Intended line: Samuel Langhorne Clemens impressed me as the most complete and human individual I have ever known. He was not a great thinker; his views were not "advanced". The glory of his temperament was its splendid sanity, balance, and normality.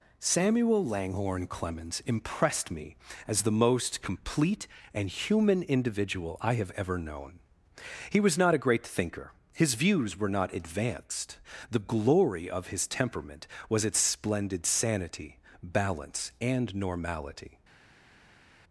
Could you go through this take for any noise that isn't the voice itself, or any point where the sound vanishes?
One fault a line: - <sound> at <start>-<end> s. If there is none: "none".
none